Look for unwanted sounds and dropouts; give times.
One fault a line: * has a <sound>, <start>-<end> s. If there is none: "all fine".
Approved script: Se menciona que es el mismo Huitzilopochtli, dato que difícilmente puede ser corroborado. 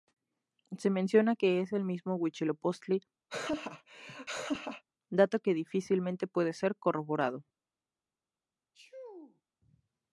* has a laugh, 3.3-4.8 s
* has a sneeze, 8.7-9.4 s